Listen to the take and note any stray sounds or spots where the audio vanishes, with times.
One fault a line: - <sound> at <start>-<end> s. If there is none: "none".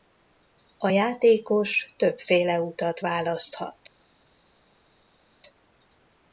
none